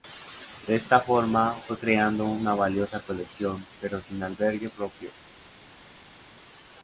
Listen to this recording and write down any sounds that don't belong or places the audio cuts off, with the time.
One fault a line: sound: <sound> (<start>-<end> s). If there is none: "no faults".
no faults